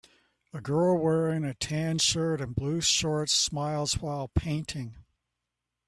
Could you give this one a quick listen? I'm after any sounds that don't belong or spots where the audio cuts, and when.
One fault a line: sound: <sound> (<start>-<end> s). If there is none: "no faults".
no faults